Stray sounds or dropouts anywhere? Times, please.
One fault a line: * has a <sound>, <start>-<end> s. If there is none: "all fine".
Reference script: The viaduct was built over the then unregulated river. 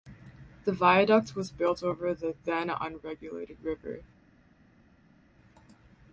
all fine